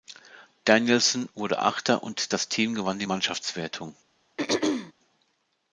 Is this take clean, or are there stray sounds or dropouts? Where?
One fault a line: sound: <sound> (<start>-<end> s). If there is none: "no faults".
sound: throat clearing (4.4-4.9 s)